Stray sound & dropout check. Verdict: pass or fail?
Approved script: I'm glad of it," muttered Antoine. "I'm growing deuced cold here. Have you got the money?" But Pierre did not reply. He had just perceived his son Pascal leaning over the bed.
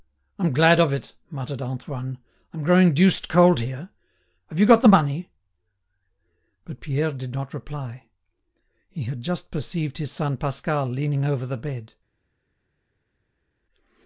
pass